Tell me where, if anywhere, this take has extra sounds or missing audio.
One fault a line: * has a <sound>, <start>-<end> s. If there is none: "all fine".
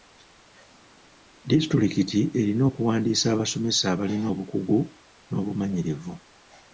all fine